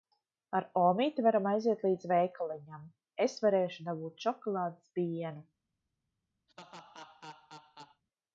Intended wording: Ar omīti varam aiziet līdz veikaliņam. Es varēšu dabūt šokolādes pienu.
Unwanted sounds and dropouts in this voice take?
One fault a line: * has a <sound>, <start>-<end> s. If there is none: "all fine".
* has a laugh, 6.5-8.0 s